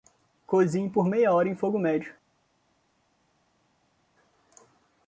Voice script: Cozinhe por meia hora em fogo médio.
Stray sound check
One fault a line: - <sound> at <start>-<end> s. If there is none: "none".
none